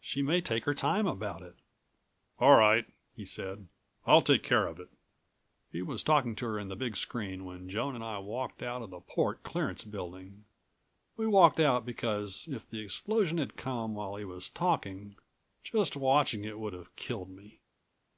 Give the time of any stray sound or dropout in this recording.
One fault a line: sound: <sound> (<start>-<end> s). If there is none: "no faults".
no faults